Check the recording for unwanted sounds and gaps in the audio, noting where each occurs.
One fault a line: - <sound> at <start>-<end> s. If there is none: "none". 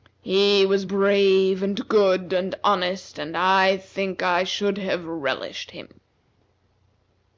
none